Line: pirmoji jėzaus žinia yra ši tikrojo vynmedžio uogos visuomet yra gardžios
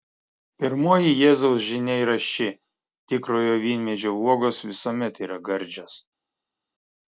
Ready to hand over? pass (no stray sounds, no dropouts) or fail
pass